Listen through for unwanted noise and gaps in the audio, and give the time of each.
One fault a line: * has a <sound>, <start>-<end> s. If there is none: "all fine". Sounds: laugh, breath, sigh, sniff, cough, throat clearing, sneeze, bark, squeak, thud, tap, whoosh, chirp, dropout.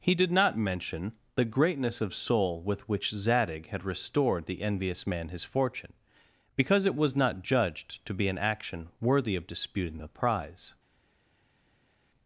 all fine